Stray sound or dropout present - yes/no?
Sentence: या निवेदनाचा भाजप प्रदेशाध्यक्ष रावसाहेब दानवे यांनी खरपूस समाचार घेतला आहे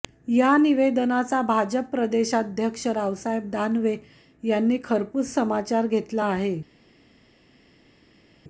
no